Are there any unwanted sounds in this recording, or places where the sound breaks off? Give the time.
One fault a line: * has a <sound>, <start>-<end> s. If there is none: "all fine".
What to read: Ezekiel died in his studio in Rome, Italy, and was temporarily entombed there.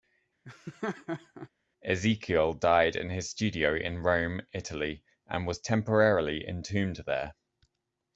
* has a laugh, 0.4-1.5 s